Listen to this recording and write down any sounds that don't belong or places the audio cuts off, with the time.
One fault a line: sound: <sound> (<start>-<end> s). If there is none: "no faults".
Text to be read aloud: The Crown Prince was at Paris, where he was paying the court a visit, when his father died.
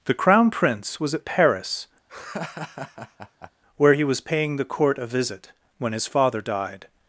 sound: laugh (2.1-3.5 s)